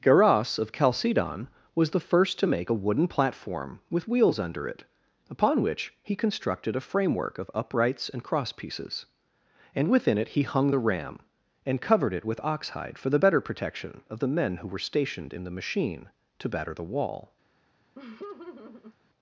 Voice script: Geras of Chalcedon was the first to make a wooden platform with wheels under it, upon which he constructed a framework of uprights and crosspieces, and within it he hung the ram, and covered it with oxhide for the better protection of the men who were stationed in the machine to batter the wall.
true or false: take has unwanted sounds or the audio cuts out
true